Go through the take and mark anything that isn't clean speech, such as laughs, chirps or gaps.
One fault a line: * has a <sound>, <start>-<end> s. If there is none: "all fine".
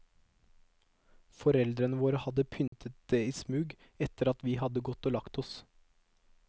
* has a dropout, 2.7-2.7 s